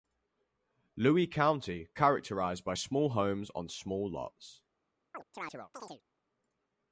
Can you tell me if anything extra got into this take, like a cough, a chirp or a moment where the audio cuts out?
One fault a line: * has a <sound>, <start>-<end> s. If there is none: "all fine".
* has a chirp, 5.1-6.0 s